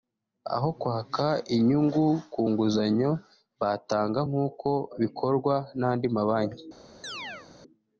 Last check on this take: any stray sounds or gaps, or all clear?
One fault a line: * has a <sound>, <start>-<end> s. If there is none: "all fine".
* has a chirp, 7.0-7.5 s